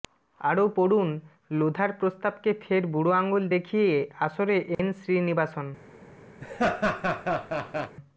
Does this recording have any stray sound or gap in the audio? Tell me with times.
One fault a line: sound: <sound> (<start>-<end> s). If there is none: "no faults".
sound: dropout (4.7-4.8 s)
sound: laugh (6.4-8.0 s)